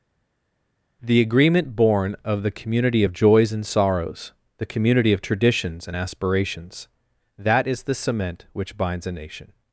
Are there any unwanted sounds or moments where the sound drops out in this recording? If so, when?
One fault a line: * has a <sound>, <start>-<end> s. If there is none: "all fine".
all fine